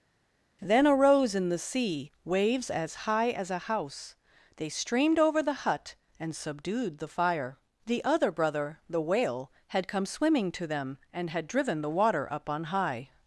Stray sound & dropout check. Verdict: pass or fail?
pass